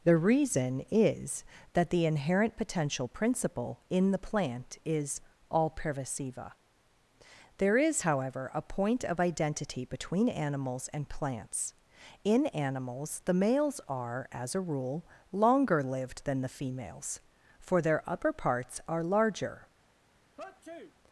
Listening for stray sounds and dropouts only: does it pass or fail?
fail